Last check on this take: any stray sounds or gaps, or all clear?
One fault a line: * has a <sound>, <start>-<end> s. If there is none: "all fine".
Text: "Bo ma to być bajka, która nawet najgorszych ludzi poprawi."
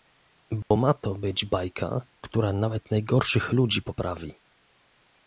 * has a dropout, 0.6-0.7 s